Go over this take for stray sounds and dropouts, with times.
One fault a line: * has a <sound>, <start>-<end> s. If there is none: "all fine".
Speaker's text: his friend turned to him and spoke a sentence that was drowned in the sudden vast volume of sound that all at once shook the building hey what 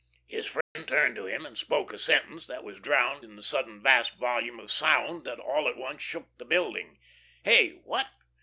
* has a dropout, 0.6-0.8 s